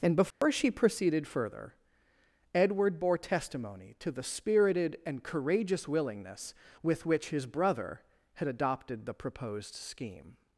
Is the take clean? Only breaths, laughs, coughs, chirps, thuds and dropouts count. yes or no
no